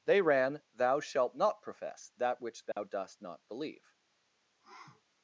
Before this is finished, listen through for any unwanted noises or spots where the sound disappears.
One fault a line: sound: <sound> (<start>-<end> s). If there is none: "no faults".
sound: dropout (2.7-2.8 s)
sound: sniff (4.6-5.0 s)